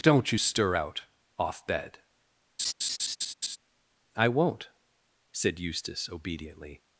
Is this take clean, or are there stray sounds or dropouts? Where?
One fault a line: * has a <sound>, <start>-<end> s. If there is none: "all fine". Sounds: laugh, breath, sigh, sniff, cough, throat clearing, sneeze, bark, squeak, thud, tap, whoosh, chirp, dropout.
* has a laugh, 2.6-3.6 s